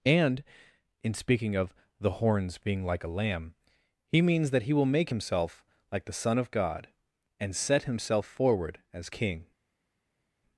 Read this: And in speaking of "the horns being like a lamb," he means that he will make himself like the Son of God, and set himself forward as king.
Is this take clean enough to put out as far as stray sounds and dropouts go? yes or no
yes